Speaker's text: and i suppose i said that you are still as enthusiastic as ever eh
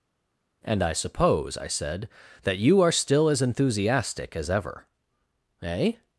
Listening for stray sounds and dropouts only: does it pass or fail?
pass